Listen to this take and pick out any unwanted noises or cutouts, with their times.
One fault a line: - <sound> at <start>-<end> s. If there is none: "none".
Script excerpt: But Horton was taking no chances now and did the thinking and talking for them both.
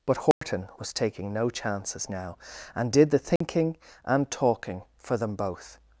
- dropout at 0.3-0.4 s
- dropout at 3.4-3.4 s